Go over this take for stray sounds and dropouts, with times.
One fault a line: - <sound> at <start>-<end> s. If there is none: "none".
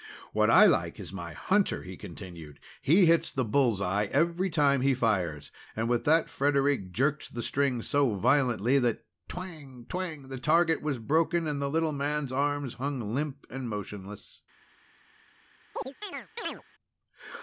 - chirp at 15.7-16.6 s